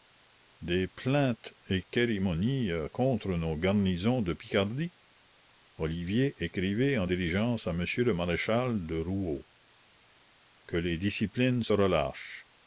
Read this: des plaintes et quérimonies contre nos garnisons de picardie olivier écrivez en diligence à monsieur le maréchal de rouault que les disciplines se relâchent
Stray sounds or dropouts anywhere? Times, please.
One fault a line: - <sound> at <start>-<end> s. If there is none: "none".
none